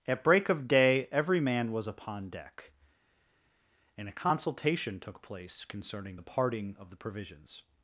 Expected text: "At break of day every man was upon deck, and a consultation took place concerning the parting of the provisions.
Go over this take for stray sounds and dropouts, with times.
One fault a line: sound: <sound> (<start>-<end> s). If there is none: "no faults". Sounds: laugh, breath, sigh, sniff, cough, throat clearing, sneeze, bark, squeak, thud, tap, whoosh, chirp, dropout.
no faults